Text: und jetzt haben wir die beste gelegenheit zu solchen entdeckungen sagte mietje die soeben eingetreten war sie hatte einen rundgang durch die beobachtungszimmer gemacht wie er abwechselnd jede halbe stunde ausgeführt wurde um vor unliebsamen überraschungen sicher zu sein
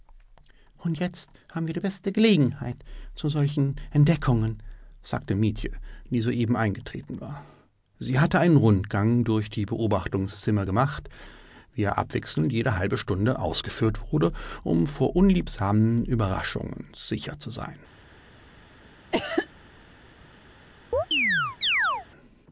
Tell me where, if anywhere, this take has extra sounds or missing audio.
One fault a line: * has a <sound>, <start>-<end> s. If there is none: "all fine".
* has a cough, 19.1-19.5 s
* has a chirp, 20.9-22.1 s